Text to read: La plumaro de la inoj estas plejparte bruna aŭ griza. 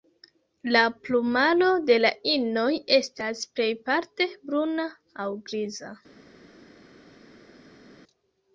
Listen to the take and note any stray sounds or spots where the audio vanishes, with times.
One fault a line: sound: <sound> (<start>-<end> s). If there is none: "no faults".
no faults